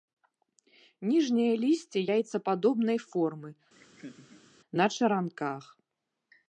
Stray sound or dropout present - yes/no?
yes